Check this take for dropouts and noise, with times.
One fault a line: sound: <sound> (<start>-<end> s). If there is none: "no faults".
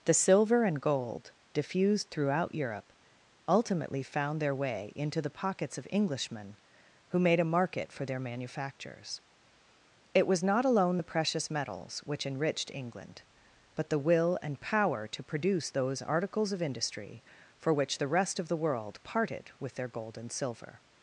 no faults